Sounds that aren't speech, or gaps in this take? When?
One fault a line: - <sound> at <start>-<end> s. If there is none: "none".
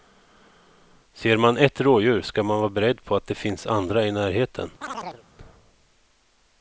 - chirp at 4.8-5.2 s